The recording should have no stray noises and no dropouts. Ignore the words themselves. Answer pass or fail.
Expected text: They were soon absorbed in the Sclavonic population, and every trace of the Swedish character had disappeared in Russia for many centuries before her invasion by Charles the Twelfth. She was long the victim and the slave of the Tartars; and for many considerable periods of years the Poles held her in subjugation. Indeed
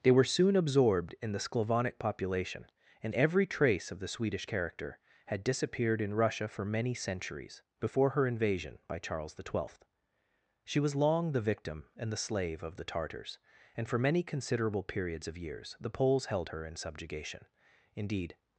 pass